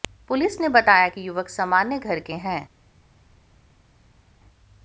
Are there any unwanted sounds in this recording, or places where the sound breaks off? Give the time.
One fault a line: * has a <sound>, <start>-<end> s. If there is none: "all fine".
all fine